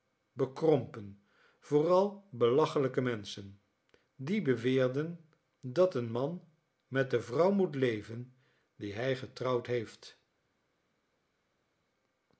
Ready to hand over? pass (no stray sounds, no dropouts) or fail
pass